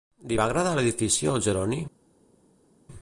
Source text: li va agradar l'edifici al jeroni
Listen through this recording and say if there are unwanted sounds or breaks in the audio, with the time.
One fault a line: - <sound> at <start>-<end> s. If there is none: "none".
none